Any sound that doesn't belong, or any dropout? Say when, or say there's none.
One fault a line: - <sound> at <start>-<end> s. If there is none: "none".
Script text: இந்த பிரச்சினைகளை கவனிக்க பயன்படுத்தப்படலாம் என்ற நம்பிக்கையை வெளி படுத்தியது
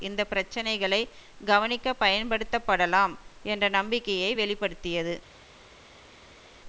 none